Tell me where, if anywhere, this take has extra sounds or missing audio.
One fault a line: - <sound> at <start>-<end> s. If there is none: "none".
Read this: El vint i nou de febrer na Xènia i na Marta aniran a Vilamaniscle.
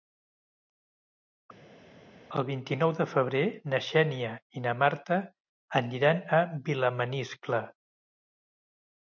none